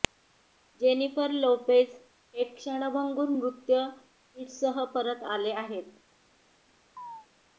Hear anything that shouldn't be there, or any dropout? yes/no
yes